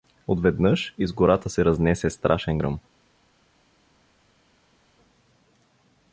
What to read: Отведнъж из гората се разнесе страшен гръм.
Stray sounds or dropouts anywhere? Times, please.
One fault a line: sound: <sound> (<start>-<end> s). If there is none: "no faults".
no faults